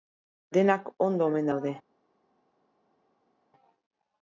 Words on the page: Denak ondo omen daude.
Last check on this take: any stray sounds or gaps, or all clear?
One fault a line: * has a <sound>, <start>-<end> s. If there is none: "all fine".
all fine